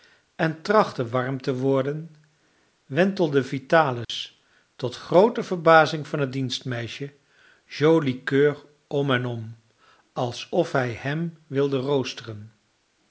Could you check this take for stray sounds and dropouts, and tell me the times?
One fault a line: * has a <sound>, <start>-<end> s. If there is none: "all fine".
* has a dropout, 4.0-4.1 s